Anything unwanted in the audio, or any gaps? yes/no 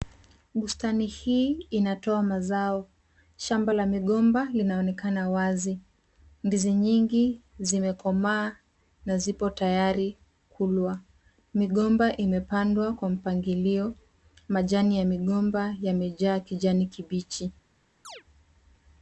yes